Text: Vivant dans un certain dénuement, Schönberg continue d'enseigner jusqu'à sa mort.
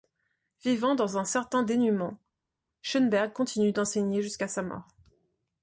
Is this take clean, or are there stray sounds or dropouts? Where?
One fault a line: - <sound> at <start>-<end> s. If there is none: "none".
none